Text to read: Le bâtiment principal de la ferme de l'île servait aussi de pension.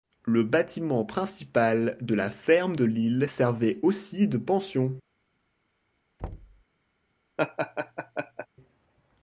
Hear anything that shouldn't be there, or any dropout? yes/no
yes